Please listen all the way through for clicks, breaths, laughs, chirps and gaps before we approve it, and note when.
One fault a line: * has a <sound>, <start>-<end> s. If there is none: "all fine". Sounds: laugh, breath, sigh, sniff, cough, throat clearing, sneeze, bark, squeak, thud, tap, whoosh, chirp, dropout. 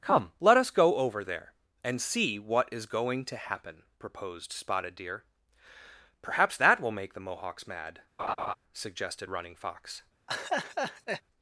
* has a laugh, 8.2-8.5 s
* has a laugh, 10.3-11.2 s